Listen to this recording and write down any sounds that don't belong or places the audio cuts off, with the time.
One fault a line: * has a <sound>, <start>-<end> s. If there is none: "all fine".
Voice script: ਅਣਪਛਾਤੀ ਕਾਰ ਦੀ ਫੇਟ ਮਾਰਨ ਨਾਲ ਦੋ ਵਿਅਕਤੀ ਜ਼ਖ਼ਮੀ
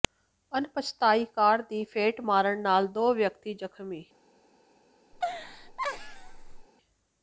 * has a laugh, 5.1-6.7 s